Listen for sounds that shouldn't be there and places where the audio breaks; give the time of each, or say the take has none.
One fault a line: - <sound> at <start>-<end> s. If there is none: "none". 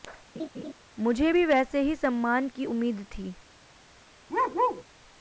- laugh at 0.3-0.7 s
- bark at 4.3-4.8 s